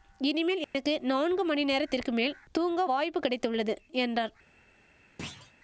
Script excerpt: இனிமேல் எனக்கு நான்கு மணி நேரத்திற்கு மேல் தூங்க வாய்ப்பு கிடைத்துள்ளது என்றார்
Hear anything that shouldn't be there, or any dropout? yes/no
yes